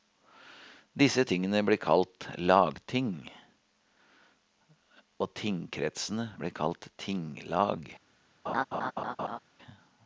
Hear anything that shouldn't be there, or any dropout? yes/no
yes